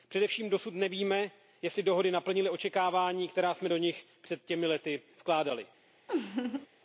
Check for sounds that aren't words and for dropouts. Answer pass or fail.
fail